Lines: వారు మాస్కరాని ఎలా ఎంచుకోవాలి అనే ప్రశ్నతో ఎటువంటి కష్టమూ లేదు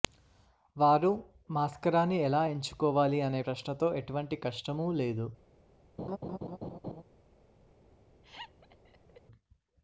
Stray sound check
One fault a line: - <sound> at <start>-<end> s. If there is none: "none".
- laugh at 6.0-7.0 s
- laugh at 8.2-9.2 s